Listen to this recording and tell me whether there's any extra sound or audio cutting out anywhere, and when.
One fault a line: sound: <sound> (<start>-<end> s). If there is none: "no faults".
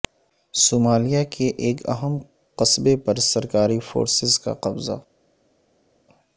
no faults